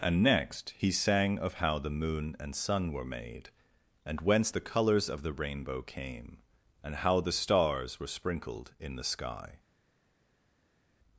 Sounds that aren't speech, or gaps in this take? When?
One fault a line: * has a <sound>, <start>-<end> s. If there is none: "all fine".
all fine